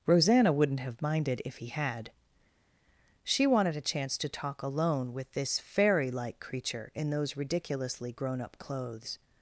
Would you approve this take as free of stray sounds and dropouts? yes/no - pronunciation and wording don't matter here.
yes